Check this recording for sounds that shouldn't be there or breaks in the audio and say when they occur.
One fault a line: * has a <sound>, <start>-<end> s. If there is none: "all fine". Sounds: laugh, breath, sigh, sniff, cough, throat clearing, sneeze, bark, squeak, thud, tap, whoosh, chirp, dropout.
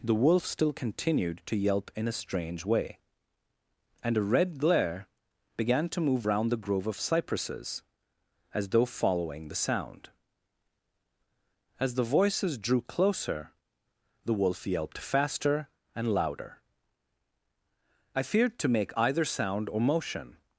all fine